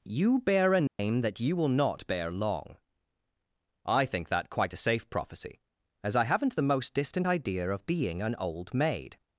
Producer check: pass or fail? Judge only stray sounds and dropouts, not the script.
fail